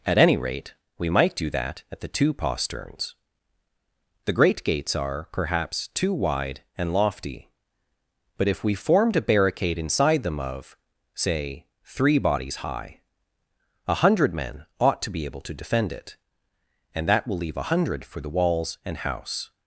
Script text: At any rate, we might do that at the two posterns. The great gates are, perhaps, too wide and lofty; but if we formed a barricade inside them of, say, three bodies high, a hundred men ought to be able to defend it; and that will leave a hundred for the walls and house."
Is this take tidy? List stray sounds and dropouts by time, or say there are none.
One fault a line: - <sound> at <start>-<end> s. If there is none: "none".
none